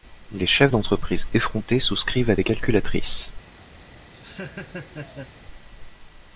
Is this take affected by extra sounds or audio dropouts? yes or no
yes